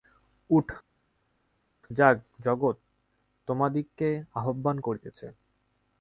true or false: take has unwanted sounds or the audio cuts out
false